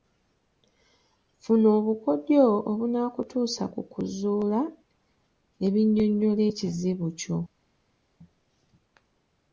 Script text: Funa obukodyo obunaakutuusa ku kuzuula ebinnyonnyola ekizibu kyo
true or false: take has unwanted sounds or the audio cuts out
false